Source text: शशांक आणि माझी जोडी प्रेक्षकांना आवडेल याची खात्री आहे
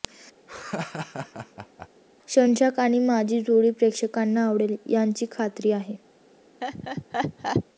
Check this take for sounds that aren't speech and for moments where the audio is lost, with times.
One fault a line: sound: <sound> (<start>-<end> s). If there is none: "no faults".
sound: laugh (0.5-1.9 s)
sound: laugh (6.6-7.6 s)